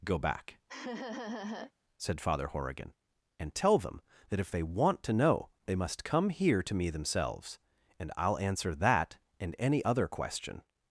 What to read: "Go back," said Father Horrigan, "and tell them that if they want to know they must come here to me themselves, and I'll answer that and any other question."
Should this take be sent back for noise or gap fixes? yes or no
yes